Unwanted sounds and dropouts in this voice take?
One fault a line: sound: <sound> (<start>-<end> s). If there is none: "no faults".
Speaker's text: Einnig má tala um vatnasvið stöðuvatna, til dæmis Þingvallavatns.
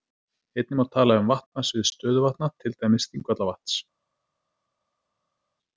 no faults